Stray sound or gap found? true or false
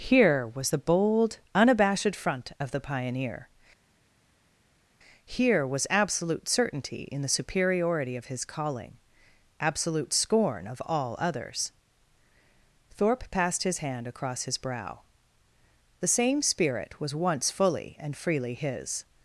false